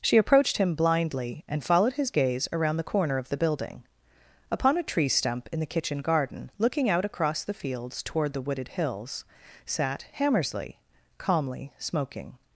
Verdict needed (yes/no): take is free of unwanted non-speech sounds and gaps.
yes